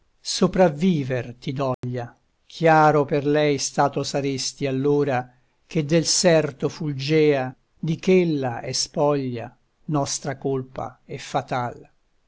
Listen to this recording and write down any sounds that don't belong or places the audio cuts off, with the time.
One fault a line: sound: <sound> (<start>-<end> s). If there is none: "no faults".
sound: dropout (1.7-1.8 s)